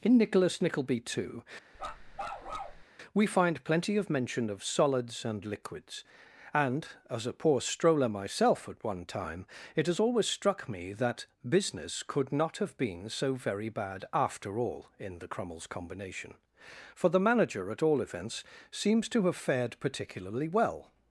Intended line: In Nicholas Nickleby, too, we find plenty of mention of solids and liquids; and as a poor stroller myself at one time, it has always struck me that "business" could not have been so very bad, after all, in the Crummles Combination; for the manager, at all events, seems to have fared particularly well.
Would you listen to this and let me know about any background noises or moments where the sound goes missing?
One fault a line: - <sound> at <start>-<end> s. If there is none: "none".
- bark at 1.7-2.8 s